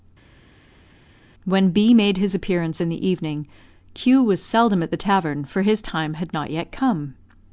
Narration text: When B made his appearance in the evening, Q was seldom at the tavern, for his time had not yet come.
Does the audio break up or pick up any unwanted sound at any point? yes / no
no